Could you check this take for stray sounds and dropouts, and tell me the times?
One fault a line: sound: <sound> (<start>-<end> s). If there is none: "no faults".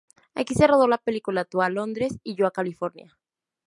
no faults